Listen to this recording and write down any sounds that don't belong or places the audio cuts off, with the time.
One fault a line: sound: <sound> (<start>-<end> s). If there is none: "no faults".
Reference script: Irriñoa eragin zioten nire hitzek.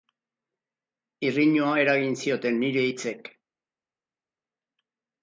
no faults